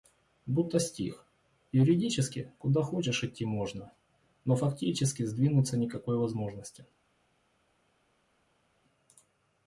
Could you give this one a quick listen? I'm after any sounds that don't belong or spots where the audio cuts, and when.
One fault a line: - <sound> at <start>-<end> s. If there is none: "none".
none